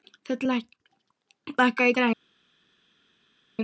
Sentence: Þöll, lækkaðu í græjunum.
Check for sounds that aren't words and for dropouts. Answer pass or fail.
pass